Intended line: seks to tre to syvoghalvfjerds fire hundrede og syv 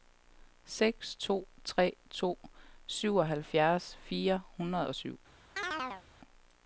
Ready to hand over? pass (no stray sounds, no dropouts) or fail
fail